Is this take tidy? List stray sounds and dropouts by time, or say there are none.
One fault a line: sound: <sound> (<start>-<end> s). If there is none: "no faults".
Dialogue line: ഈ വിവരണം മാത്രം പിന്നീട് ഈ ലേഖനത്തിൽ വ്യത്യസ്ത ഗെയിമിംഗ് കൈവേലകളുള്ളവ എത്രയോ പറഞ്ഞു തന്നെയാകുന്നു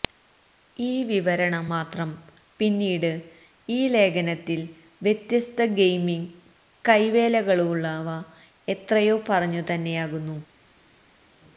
no faults